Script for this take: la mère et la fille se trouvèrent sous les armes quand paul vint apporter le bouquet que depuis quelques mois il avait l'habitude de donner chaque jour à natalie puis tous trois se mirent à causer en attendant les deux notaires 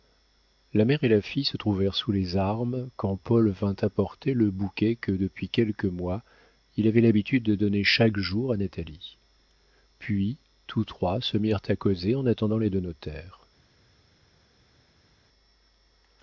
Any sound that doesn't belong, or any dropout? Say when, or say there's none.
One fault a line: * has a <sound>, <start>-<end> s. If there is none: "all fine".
all fine